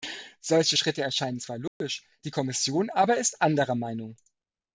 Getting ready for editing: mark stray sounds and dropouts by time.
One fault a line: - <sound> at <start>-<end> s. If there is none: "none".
- dropout at 1.7-1.8 s